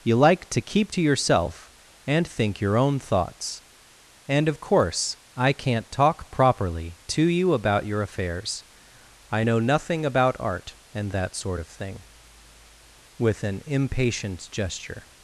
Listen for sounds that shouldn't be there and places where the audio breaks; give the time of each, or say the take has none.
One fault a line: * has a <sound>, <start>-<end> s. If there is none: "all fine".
all fine